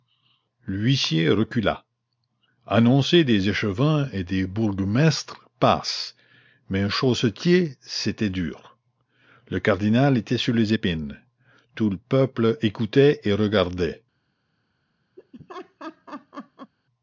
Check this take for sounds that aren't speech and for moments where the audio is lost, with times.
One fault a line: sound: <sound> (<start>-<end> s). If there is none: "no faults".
sound: laugh (15.2-16.7 s)